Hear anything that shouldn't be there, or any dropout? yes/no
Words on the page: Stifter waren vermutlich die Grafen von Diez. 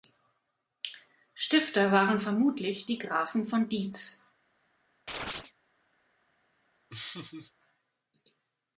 yes